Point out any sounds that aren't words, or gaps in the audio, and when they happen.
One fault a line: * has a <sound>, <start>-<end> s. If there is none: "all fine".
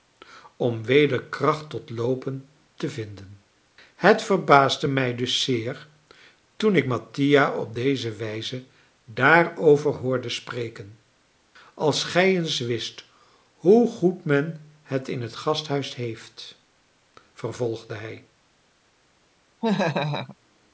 * has a laugh, 19.6-20.4 s